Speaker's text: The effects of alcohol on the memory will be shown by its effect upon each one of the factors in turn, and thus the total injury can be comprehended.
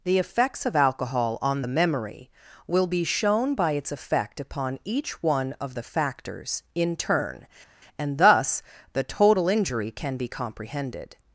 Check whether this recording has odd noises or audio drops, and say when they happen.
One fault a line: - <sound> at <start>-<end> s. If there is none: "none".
none